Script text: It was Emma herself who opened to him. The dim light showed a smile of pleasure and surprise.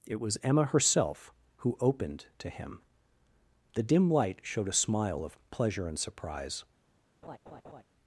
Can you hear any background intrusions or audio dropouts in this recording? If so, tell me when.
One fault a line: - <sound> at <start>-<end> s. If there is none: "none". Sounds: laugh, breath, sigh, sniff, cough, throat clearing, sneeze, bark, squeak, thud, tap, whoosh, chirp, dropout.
- laugh at 7.2-7.8 s